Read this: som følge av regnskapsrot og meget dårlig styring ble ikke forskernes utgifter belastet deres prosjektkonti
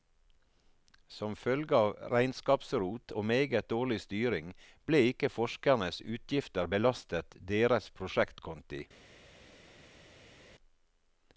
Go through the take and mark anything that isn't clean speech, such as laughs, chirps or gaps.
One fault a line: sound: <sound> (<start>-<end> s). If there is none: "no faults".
no faults